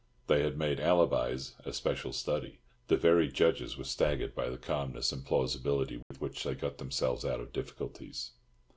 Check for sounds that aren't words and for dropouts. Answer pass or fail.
fail